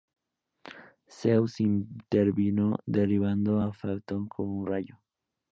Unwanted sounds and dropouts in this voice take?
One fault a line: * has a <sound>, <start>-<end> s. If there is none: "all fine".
all fine